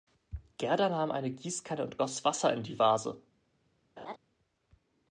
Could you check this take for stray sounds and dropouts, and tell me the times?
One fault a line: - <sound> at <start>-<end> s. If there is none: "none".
- laugh at 4.0-4.2 s